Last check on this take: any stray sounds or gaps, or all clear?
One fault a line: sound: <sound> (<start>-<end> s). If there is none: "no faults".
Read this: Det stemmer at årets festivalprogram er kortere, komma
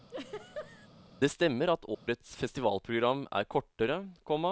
sound: laugh (0.1-0.9 s)
sound: dropout (1.9-2.1 s)